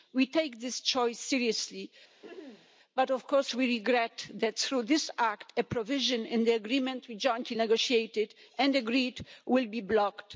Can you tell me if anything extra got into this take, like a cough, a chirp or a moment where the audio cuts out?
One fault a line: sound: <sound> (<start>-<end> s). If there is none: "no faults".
sound: throat clearing (2.2-2.7 s)